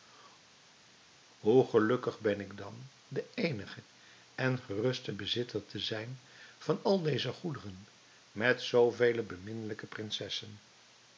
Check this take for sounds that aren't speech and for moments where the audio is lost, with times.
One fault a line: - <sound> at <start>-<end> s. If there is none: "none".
none